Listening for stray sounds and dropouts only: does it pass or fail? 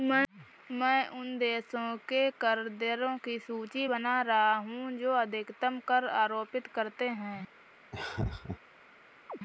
fail